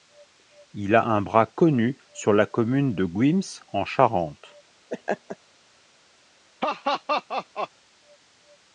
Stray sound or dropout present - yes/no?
yes